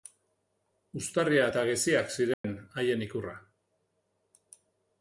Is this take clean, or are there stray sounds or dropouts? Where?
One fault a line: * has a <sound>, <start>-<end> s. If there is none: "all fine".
* has a dropout, 2.3-2.4 s